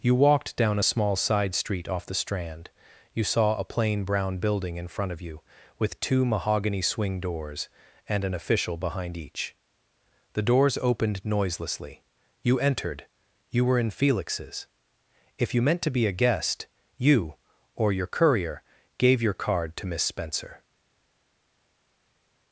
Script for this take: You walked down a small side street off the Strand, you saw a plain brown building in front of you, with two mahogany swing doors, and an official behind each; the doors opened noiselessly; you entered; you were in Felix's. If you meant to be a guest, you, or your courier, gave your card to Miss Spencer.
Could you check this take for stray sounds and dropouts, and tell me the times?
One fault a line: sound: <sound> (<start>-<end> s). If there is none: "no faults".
no faults